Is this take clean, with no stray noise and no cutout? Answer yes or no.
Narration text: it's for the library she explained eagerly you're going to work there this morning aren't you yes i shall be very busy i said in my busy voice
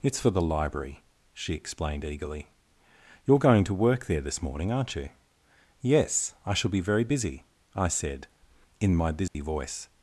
no